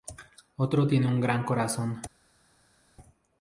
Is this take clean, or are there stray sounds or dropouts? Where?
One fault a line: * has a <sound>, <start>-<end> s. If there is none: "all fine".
all fine